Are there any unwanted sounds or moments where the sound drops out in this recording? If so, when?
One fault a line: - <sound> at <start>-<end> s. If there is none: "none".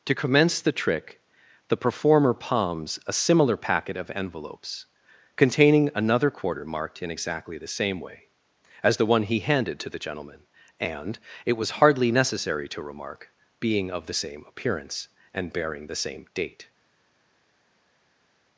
none